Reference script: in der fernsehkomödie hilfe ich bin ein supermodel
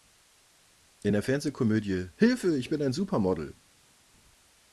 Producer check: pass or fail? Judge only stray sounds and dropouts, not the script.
pass